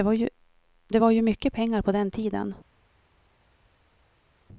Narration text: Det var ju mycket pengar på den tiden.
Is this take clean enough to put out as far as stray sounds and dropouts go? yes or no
yes